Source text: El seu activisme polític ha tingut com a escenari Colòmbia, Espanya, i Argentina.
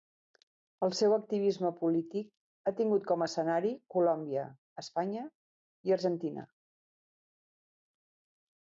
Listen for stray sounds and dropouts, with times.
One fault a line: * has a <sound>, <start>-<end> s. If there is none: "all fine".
all fine